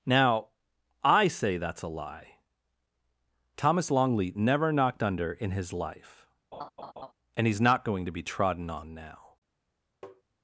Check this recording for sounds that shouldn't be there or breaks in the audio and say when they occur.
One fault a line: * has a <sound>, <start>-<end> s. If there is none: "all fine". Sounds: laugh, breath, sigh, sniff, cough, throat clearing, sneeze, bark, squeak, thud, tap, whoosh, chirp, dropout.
* has a laugh, 6.5-7.1 s
* has a tap, 10.0-10.2 s